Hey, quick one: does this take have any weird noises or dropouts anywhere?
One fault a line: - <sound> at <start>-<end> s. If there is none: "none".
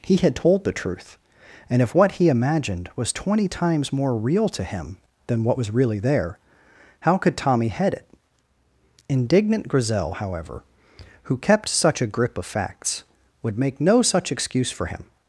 none